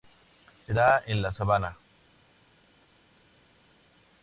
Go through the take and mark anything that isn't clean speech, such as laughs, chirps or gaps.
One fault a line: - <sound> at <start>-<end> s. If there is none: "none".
none